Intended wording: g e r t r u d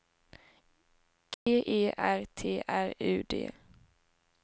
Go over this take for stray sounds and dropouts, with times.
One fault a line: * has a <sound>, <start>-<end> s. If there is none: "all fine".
* has a dropout, 1.3-1.5 s